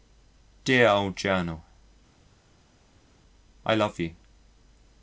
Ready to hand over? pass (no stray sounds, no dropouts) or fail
pass